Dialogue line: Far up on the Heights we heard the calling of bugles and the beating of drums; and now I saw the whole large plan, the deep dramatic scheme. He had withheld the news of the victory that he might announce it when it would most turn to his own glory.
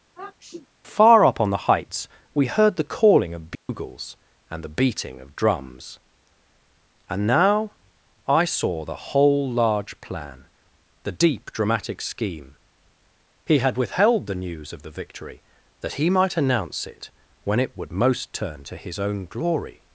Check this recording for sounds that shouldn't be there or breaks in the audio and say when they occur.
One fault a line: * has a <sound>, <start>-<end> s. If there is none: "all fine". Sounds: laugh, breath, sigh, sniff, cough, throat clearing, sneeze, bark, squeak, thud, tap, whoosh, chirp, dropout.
* has a sniff, 0.1-0.7 s
* has a dropout, 3.5-3.7 s